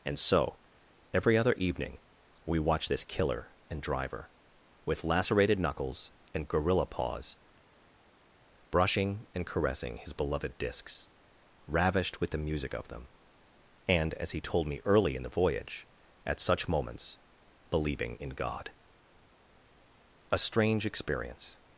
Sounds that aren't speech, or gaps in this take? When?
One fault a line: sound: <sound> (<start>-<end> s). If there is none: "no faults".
no faults